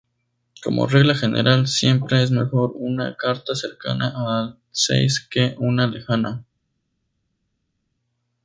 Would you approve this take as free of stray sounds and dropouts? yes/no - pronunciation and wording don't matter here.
yes